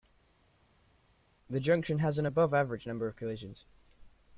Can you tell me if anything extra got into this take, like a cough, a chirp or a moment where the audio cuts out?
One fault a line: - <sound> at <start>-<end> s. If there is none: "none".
none